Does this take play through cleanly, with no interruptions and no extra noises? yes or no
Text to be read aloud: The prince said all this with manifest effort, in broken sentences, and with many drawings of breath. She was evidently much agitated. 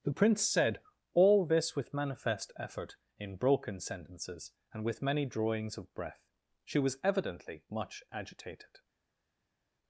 yes